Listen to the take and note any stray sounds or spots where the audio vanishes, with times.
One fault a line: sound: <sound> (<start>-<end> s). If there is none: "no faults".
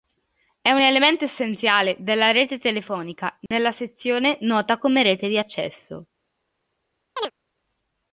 sound: dropout (3.5-3.5 s)
sound: chirp (7.2-7.3 s)